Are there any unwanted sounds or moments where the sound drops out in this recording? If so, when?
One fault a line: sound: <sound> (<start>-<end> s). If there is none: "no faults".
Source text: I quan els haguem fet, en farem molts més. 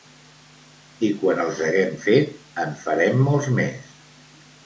no faults